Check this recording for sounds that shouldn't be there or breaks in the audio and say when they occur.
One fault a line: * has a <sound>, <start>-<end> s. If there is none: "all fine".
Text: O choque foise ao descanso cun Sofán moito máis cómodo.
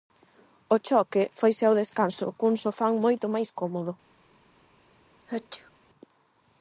* has a sneeze, 5.2-5.7 s